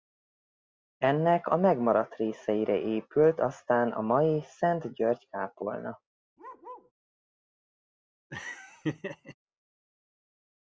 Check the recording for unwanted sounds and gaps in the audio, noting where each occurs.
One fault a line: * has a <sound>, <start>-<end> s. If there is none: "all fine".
* has a bark, 6.4-6.9 s
* has a laugh, 8.3-9.3 s